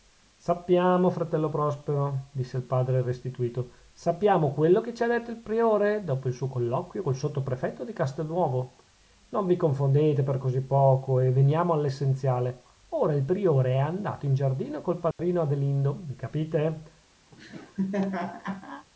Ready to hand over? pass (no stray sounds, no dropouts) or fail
fail